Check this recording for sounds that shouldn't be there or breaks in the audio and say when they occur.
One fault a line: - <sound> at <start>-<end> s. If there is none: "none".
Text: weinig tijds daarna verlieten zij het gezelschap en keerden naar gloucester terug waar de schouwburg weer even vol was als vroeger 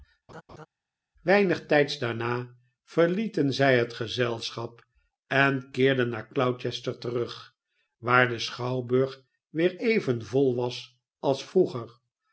- laugh at 0.3-0.7 s